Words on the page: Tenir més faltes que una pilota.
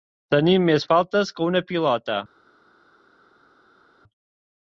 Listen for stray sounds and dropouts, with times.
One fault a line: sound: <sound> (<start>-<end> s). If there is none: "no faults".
no faults